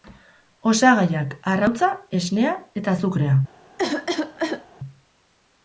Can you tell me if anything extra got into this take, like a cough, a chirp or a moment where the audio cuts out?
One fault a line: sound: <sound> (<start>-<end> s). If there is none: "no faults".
sound: cough (3.8-4.7 s)